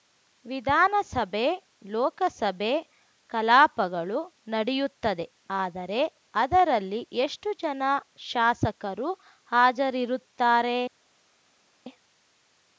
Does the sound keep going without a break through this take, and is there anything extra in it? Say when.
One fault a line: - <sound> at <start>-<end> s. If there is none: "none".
none